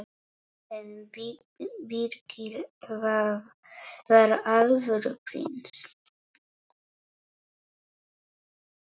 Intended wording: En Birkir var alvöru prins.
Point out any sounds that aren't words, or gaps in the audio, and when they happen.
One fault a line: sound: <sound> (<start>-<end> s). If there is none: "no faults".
sound: dropout (5.7-5.7 s)